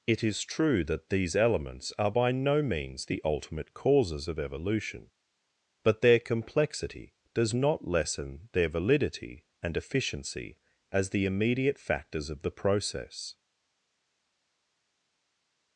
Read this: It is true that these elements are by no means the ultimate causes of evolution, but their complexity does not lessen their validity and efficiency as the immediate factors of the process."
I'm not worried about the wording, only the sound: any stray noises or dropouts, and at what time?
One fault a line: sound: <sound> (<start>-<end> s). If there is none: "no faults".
no faults